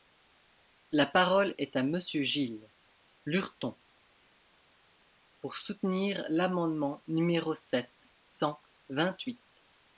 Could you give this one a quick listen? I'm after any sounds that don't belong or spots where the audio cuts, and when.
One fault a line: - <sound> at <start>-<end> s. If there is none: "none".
none